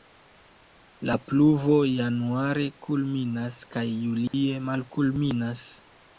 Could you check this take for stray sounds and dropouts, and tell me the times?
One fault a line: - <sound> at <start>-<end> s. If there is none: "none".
- dropout at 4.3-4.3 s